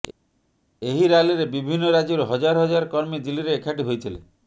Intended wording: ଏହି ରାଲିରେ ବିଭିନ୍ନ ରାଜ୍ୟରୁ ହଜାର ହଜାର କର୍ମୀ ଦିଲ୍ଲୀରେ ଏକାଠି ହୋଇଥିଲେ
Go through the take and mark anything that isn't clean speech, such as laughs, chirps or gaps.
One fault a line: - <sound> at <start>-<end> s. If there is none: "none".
none